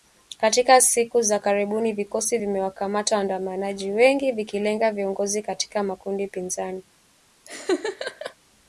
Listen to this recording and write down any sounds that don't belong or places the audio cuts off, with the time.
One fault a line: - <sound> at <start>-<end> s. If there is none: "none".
- laugh at 7.4-8.3 s